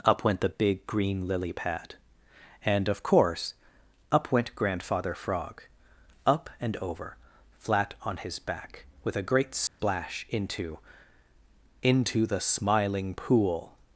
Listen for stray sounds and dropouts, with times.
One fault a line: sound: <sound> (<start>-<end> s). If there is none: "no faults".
sound: dropout (9.7-9.8 s)